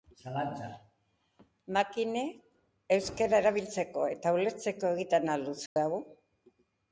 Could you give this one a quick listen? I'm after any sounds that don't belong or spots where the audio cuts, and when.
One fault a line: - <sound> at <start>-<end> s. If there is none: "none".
- dropout at 5.7-5.8 s